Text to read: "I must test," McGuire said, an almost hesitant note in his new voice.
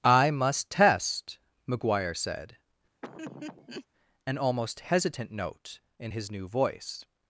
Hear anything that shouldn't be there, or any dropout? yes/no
yes